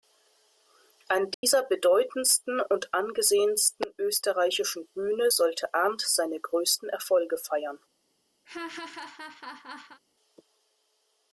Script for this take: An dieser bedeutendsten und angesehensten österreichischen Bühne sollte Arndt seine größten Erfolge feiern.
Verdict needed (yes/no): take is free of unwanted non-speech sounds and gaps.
no